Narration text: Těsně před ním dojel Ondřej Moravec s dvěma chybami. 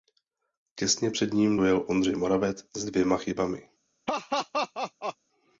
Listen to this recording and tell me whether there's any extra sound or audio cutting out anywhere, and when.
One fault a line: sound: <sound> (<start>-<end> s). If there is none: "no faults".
sound: laugh (4.1-5.2 s)